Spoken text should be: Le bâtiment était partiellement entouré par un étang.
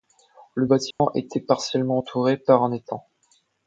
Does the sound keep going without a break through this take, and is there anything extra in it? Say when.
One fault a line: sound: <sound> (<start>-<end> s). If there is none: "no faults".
sound: dropout (0.9-1.0 s)